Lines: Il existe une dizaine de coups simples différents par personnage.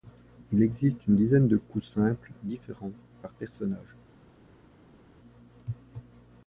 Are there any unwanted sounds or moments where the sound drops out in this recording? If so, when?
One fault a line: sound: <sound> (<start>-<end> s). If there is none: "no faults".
no faults